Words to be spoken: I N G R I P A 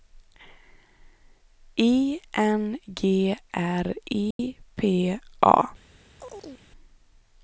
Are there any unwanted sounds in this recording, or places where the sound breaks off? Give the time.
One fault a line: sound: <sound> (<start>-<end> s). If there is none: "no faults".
sound: dropout (4.3-4.4 s)
sound: chirp (6.2-6.7 s)